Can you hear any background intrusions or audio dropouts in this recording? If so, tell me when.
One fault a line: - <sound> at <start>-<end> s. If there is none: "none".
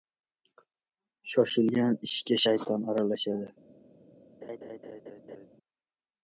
- laugh at 4.4-5.5 s